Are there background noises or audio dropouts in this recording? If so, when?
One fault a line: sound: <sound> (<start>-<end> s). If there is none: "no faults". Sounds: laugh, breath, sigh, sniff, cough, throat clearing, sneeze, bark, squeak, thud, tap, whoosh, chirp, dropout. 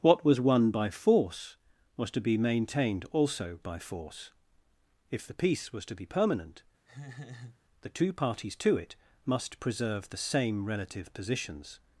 sound: laugh (6.9-7.6 s)